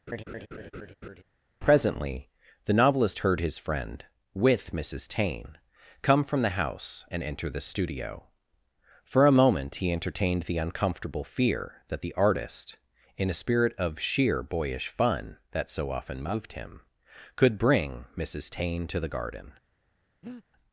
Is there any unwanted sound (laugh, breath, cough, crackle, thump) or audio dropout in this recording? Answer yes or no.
yes